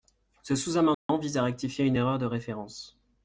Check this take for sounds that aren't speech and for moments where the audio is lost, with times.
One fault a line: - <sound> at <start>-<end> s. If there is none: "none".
- dropout at 0.9-1.1 s